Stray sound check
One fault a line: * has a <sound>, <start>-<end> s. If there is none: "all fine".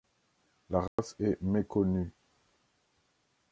* has a dropout, 0.9-1.0 s